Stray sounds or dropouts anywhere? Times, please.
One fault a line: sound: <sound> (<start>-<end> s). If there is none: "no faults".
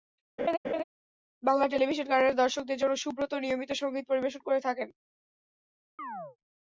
sound: laugh (0.4-0.8 s)
sound: chirp (6.0-6.4 s)